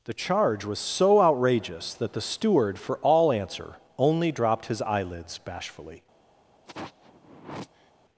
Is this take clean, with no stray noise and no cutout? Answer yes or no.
no